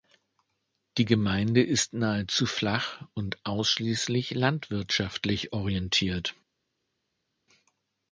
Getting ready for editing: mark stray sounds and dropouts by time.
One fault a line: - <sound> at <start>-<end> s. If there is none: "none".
none